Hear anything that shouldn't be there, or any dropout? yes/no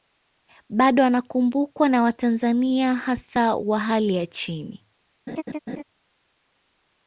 yes